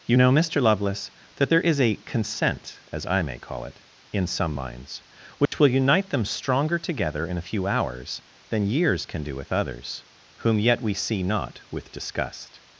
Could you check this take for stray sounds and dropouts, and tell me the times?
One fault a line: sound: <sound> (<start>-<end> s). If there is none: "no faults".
sound: dropout (5.5-5.5 s)